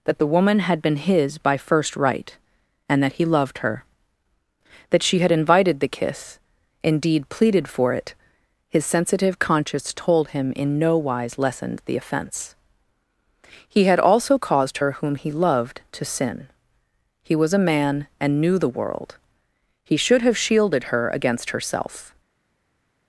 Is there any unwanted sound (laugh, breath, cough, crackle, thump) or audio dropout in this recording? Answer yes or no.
no